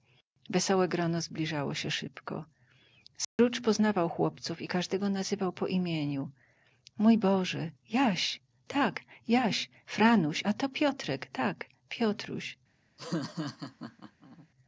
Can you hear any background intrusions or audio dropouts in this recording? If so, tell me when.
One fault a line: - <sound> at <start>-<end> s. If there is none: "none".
- dropout at 3.2-3.4 s
- laugh at 13.0-14.5 s